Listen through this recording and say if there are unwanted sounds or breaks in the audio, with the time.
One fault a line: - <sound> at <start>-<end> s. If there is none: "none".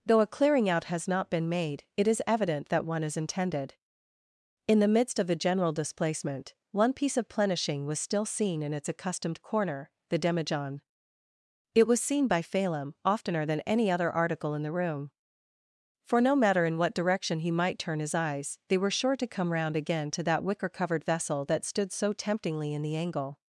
none